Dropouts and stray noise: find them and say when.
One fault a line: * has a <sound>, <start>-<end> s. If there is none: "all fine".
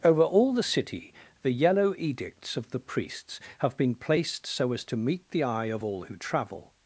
all fine